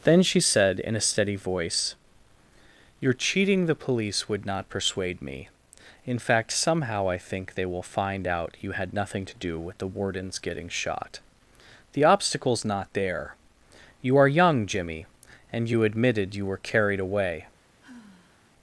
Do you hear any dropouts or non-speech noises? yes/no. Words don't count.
yes